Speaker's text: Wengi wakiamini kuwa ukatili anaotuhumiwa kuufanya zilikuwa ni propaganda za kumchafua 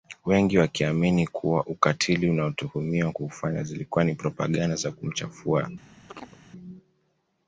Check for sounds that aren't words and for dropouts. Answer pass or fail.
fail